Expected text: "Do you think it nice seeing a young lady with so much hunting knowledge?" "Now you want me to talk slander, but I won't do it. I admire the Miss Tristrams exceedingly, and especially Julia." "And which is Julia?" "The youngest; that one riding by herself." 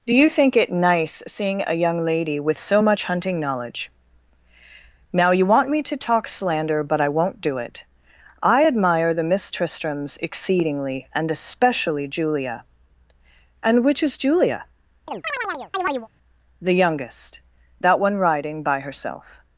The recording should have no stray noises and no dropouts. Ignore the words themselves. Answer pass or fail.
fail